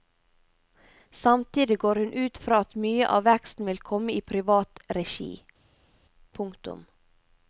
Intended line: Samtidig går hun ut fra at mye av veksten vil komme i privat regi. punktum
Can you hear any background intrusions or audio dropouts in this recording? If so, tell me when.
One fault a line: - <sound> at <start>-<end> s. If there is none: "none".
none